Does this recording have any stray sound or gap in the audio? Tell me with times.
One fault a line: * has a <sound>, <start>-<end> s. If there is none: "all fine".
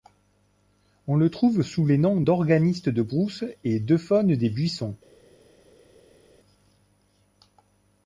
all fine